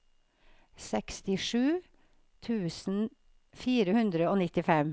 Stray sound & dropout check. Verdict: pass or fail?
pass